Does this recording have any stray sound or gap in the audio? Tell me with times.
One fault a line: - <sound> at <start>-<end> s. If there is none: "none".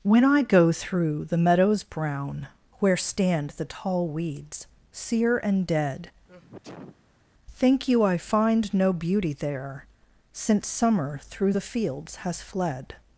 - sneeze at 6.3-7.2 s